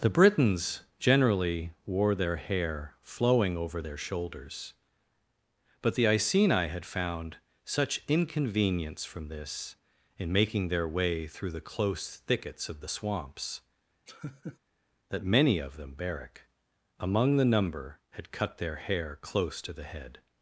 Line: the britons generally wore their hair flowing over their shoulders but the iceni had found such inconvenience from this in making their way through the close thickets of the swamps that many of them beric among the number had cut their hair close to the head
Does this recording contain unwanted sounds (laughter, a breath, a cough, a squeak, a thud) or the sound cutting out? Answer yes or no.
yes